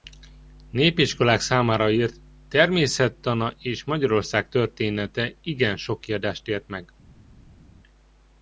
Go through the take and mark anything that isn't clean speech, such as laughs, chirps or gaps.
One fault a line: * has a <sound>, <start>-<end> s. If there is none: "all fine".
all fine